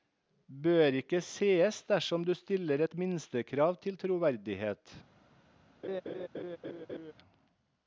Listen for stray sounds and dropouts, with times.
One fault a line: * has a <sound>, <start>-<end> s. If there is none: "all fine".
* has a laugh, 5.8-7.1 s